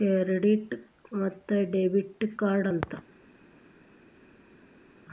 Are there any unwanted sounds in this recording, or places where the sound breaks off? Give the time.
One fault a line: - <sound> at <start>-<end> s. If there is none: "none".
none